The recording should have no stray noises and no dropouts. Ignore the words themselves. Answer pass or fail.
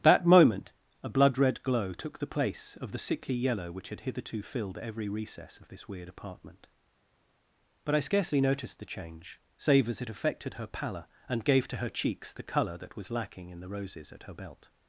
pass